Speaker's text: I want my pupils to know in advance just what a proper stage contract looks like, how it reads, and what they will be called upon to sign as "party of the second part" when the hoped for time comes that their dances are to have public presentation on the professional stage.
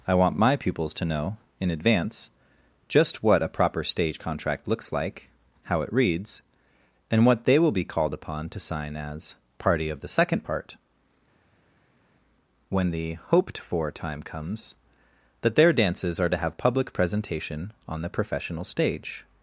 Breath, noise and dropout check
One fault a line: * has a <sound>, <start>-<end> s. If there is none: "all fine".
all fine